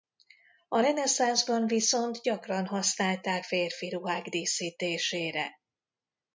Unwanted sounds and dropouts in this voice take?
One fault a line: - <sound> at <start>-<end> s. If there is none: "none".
none